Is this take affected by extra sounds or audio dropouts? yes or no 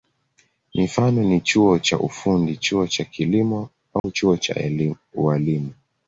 yes